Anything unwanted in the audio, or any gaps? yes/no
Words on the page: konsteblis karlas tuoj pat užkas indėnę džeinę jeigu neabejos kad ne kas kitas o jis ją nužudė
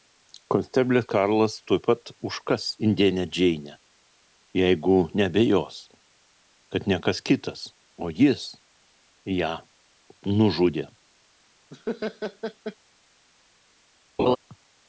yes